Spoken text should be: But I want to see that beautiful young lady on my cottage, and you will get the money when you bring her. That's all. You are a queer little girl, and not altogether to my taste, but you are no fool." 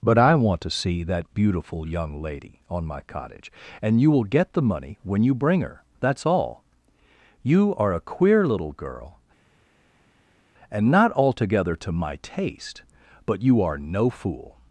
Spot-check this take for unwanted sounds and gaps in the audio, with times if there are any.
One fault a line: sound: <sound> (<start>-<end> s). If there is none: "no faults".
no faults